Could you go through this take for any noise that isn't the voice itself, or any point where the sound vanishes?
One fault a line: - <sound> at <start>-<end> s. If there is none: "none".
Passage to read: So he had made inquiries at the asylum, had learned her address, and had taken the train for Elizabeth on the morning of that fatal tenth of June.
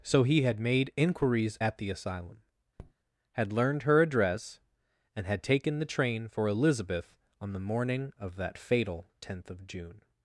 - tap at 2.8-2.9 s